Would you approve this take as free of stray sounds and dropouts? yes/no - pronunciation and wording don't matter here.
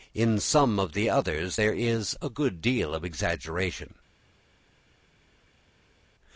yes